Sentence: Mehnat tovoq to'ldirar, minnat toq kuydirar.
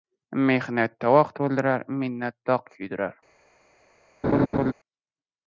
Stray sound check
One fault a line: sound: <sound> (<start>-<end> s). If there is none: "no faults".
sound: laugh (4.2-4.7 s)